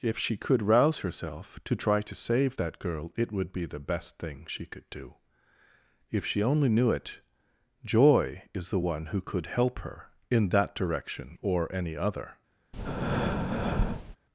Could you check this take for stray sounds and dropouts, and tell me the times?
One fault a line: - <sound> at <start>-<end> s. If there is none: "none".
- breath at 12.7-14.2 s